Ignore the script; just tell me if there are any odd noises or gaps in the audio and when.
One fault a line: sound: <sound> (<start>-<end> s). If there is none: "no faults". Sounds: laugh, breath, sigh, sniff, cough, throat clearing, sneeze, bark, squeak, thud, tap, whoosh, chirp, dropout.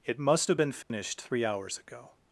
sound: dropout (0.8-0.9 s)